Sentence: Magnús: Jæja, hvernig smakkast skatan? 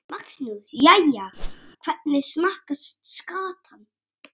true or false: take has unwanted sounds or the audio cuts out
true